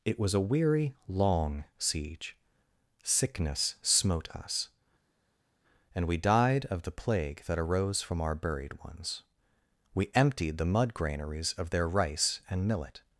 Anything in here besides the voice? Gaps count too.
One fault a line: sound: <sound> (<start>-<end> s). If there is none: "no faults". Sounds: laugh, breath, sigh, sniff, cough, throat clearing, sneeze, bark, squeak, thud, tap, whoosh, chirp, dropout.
no faults